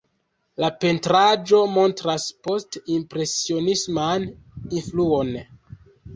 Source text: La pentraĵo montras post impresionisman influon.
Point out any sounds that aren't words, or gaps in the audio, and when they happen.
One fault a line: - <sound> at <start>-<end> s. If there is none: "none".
none